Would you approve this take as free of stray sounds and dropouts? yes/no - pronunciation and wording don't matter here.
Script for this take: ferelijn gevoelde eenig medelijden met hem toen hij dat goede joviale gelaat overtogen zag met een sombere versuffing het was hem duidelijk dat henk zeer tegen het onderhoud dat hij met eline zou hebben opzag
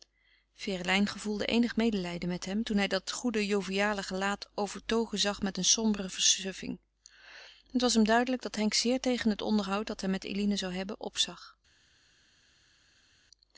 yes